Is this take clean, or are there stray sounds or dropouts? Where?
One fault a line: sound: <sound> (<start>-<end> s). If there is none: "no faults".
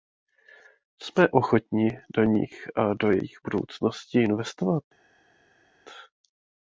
no faults